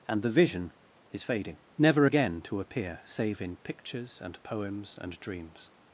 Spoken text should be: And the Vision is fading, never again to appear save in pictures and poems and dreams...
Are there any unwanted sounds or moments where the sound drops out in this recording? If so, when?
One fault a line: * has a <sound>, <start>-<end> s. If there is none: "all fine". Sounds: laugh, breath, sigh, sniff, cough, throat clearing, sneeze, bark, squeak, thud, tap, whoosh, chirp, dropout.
all fine